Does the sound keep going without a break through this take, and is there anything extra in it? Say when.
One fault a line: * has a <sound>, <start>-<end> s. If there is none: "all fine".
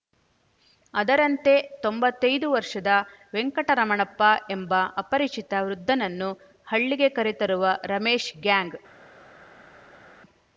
all fine